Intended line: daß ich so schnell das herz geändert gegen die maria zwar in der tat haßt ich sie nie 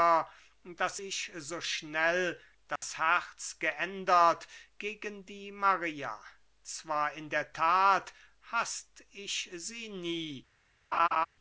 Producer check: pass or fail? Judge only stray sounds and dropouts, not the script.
fail